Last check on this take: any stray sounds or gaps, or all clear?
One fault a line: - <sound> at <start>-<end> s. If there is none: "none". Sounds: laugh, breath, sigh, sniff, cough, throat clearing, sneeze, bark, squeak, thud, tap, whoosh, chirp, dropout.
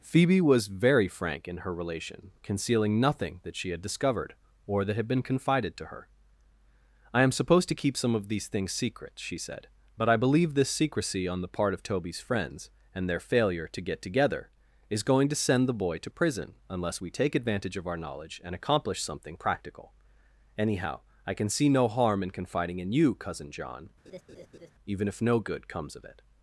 - laugh at 24.1-24.7 s